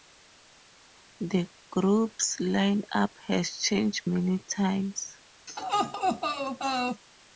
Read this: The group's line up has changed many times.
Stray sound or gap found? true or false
true